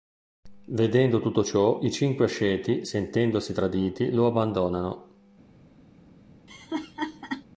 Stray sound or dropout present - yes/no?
yes